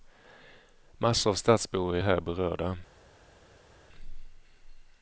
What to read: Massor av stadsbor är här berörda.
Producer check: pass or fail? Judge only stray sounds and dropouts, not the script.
pass